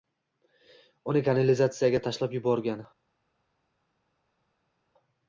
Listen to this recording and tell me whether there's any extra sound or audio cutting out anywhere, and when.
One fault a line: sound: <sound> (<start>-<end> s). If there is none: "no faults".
no faults